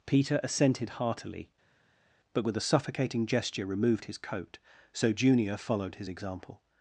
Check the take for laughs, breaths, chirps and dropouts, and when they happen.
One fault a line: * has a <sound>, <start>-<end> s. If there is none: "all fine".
all fine